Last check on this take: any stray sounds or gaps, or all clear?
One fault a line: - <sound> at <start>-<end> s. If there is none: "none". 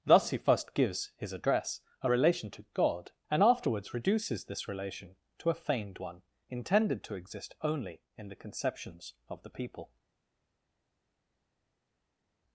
none